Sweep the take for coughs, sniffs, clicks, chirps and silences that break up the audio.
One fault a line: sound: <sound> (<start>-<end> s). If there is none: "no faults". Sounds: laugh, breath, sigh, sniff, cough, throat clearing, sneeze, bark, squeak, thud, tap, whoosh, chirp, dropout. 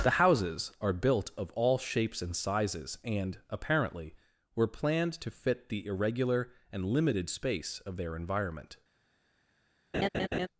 sound: laugh (9.9-10.5 s)